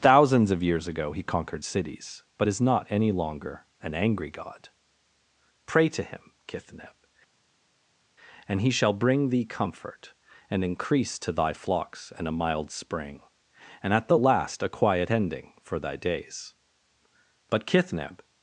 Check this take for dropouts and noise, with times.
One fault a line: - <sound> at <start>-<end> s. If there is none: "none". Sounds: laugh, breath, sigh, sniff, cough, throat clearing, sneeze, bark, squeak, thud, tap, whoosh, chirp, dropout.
none